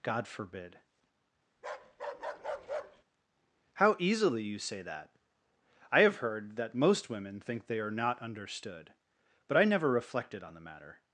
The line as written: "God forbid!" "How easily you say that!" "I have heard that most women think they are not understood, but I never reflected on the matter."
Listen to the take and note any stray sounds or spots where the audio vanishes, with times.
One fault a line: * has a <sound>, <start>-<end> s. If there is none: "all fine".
* has a bark, 1.6-3.0 s